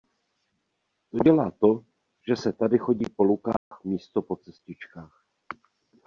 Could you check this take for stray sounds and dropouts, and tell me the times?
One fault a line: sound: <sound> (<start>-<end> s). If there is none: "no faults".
sound: dropout (3.6-3.7 s)